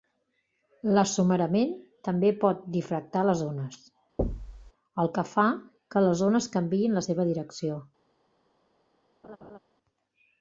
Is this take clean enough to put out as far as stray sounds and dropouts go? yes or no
no